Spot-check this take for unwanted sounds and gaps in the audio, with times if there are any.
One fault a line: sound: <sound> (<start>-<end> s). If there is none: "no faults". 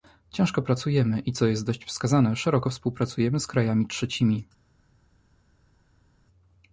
no faults